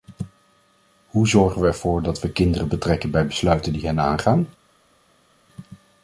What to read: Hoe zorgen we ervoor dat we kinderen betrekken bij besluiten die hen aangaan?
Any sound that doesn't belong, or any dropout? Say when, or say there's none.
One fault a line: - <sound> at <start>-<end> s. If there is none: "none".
none